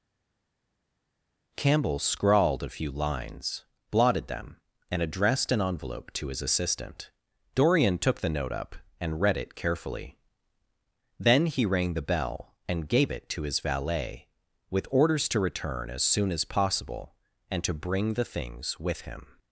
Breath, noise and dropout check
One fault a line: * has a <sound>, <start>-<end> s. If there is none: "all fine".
all fine